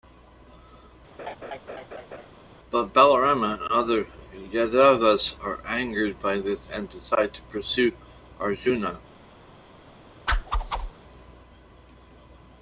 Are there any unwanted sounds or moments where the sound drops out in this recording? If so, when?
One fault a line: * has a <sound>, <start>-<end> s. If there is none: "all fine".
* has a laugh, 1.2-2.3 s
* has a whoosh, 10.3-10.9 s